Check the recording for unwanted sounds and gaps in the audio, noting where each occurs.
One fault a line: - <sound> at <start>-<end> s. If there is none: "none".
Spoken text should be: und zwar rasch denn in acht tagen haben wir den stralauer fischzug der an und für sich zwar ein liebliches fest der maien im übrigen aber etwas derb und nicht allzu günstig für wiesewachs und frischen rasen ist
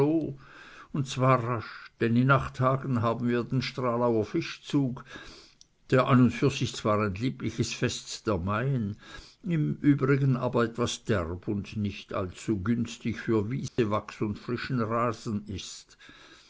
- dropout at 13.7-13.8 s